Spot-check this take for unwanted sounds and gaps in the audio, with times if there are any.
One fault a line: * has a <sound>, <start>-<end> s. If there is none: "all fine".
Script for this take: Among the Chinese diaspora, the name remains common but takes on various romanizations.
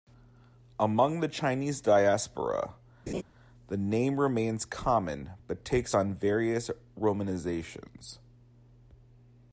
* has a laugh, 3.1-3.2 s